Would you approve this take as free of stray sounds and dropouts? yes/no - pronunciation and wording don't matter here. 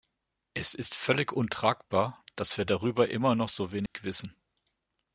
no